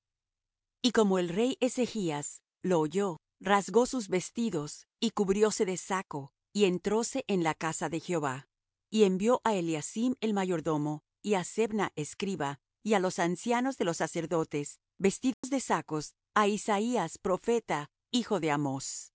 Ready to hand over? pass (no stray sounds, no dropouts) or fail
fail